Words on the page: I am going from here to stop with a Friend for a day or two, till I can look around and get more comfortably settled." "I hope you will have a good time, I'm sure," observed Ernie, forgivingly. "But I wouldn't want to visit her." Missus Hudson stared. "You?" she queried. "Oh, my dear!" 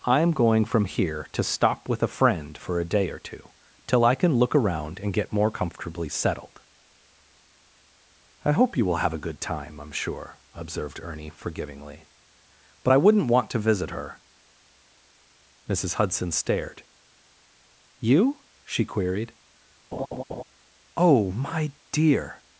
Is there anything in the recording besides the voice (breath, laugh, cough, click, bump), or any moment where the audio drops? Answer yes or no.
yes